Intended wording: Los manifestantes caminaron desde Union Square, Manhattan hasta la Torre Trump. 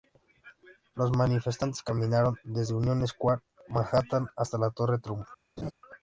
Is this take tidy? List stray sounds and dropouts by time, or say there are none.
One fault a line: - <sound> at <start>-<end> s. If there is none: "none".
- laugh at 5.6-5.7 s